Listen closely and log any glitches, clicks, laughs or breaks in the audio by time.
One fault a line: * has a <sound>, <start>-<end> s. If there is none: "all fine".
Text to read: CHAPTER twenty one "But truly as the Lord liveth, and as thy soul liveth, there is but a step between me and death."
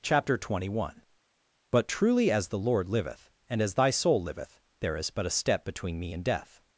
all fine